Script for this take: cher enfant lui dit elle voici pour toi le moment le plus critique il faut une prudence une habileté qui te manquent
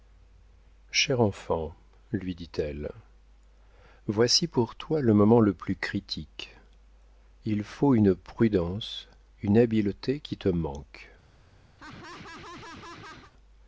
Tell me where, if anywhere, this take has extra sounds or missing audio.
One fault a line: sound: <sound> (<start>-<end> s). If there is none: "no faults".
sound: laugh (11.8-13.3 s)